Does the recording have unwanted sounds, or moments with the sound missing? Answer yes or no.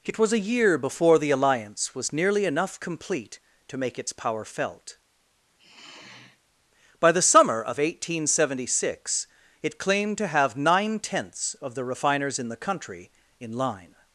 yes